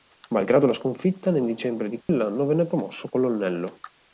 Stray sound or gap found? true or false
true